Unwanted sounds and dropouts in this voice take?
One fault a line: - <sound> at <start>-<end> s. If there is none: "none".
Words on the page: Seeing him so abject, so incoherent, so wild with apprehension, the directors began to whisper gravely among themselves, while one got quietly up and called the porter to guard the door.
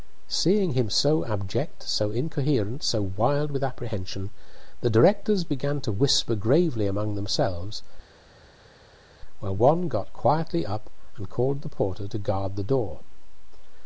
none